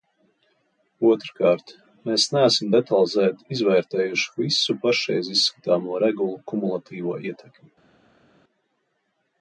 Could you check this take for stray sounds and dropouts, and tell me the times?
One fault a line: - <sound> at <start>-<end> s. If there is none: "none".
none